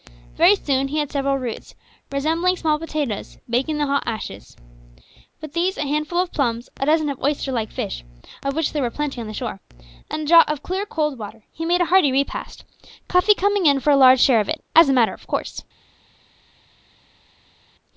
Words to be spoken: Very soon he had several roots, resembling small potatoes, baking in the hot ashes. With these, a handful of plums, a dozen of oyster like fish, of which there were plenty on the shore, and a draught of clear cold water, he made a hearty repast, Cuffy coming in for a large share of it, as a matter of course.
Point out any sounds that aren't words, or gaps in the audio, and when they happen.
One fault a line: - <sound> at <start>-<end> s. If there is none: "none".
none